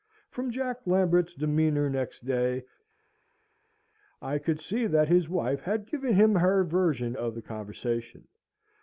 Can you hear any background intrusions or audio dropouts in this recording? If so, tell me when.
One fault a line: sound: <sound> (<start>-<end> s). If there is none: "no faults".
no faults